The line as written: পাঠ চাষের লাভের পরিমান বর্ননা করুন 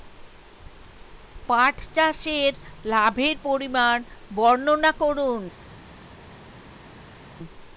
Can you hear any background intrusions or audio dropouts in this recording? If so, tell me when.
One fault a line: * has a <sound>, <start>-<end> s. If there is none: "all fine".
all fine